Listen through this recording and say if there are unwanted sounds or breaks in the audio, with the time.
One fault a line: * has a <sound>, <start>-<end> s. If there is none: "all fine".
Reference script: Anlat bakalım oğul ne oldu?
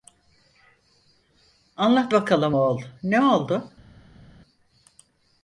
all fine